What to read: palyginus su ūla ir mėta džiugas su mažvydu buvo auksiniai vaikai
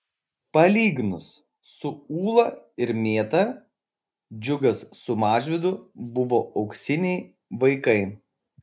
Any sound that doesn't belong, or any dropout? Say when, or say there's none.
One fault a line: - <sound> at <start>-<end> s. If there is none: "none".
none